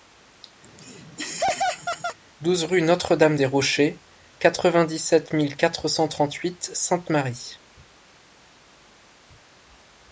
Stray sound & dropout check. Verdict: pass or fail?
fail